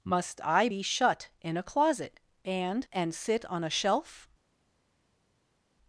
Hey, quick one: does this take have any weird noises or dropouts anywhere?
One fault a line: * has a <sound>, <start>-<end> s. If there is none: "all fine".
all fine